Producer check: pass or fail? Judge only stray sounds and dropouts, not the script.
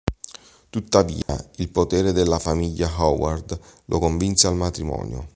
fail